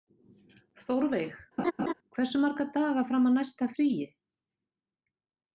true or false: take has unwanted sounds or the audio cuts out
true